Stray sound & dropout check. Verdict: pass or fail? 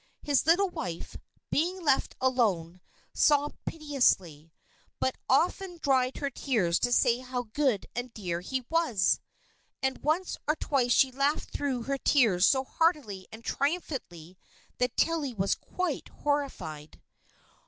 pass